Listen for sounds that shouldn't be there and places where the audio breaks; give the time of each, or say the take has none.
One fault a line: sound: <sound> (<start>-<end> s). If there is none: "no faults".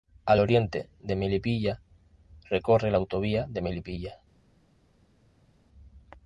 no faults